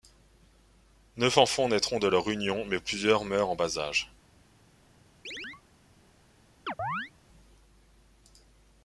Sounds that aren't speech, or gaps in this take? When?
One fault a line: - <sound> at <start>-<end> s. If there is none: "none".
- chirp at 5.2-5.6 s
- chirp at 6.7-7.1 s